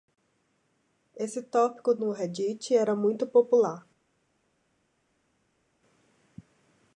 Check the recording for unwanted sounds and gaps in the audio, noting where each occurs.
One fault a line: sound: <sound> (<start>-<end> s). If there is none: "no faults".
no faults